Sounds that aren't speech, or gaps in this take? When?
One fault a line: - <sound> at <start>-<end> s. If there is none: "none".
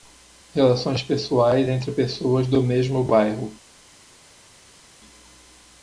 none